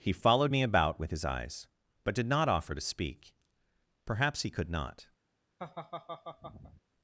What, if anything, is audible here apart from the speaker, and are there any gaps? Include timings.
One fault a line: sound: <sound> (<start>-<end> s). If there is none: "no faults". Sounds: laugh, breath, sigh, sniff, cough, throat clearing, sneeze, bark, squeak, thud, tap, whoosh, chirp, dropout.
sound: laugh (5.6-6.8 s)